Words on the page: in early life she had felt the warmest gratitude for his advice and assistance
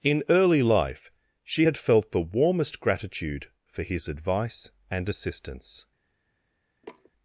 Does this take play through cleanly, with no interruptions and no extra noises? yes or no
no